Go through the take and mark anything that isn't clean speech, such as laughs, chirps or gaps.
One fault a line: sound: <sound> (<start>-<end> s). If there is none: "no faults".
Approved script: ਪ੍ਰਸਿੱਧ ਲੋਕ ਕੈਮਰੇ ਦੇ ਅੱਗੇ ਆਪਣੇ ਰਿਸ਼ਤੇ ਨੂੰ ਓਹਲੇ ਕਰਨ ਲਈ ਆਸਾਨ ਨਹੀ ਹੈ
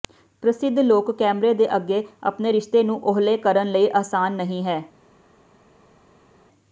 no faults